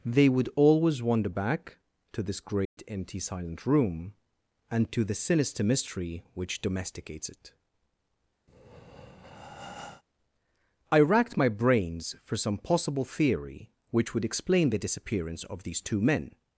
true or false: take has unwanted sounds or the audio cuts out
true